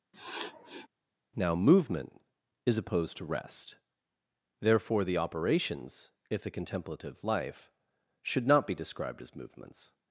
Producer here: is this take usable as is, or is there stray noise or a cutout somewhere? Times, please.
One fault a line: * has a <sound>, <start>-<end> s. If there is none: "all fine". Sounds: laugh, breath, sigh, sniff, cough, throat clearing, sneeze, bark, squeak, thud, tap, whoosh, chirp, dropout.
* has a sniff, 0.1-0.9 s